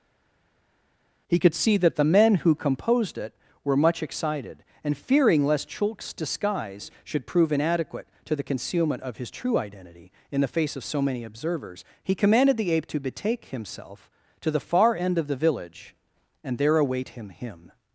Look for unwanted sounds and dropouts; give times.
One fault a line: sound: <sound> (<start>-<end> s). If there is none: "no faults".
no faults